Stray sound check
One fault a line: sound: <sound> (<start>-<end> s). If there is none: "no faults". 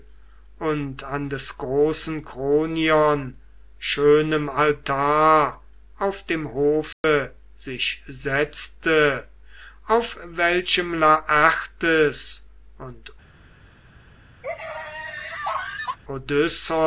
sound: dropout (6.9-7.0 s)
sound: laugh (14.4-16.0 s)